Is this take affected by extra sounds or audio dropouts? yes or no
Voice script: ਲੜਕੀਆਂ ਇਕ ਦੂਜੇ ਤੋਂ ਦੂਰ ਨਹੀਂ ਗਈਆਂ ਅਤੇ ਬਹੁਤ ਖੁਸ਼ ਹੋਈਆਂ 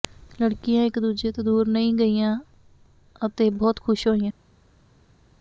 no